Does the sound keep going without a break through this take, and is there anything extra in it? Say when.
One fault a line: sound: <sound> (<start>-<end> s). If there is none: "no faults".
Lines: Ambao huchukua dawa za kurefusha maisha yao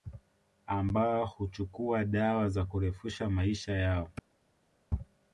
no faults